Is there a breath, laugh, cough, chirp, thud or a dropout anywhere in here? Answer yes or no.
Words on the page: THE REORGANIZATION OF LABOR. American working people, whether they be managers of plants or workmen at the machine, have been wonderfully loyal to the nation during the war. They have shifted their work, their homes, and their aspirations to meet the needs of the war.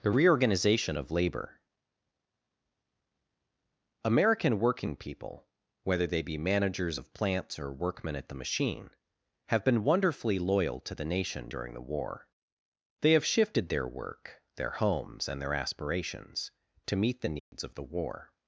yes